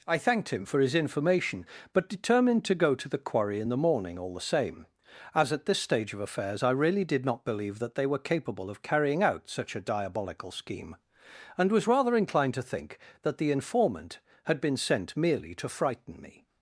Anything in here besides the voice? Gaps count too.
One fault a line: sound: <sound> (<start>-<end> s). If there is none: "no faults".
no faults